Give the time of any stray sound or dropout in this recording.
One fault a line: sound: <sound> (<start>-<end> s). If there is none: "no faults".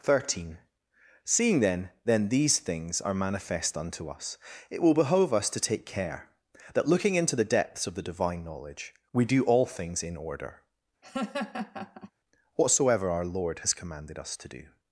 sound: laugh (11.0-12.1 s)